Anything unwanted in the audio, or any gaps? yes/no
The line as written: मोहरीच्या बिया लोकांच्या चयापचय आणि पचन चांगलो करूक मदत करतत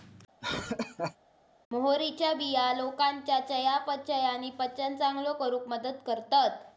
yes